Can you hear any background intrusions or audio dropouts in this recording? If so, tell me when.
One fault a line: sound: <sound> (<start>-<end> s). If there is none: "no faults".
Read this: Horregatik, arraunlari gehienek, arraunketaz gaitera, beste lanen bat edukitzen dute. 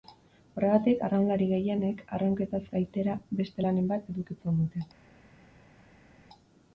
no faults